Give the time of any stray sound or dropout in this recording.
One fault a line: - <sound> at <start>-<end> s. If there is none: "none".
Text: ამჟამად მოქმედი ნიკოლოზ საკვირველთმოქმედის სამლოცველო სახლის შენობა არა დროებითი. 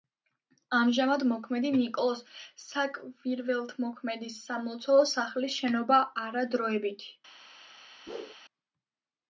- whoosh at 8.1-8.4 s